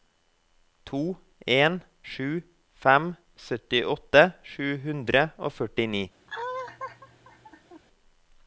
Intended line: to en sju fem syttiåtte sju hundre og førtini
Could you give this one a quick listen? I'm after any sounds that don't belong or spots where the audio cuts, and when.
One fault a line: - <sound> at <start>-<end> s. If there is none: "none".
- laugh at 6.3-7.8 s